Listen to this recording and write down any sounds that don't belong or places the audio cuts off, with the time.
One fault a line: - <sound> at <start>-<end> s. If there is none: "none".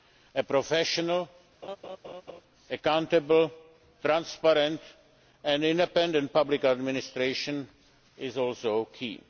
- laugh at 1.6-2.4 s